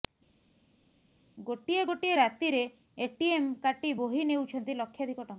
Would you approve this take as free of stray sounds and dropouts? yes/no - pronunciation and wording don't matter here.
yes